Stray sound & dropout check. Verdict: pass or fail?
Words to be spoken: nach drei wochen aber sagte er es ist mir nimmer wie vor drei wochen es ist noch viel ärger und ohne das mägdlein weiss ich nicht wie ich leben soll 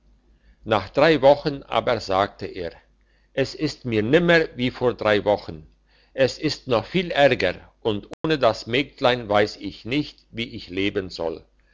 fail